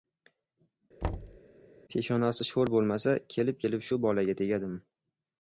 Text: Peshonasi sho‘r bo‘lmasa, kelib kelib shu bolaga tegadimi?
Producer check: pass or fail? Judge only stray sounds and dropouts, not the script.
fail